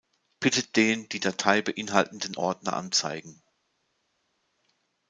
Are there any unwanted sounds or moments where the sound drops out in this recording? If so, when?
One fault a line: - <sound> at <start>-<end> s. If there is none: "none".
none